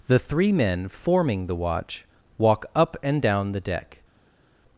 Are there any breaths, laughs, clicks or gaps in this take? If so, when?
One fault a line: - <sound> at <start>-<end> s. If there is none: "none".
none